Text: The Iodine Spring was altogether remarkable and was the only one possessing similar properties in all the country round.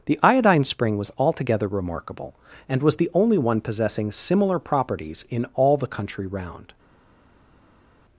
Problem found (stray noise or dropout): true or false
false